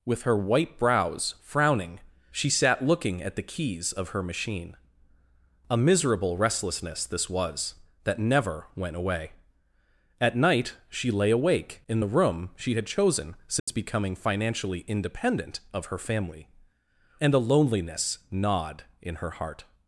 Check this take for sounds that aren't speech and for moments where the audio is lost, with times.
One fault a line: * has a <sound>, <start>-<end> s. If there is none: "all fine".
* has a dropout, 13.6-13.7 s